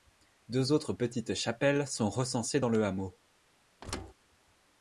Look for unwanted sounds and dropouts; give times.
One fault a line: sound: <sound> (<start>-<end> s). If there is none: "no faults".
sound: thud (3.8-4.1 s)